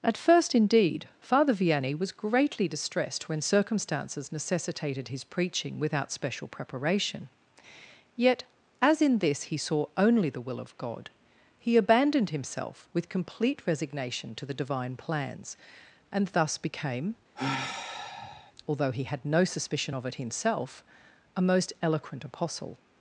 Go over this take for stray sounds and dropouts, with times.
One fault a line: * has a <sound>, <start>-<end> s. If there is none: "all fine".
* has a sigh, 17.4-18.5 s